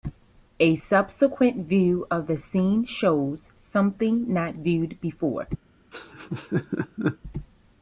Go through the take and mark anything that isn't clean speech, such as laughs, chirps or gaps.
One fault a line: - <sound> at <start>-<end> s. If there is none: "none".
- laugh at 5.9-7.2 s